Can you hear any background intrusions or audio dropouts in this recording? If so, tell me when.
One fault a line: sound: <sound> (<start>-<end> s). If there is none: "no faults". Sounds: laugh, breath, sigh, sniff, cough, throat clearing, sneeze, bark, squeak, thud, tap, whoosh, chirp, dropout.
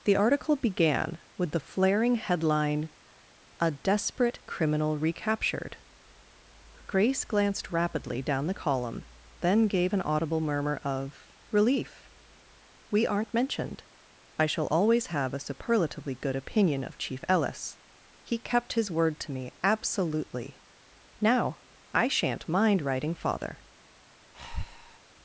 sound: breath (24.3-25.0 s)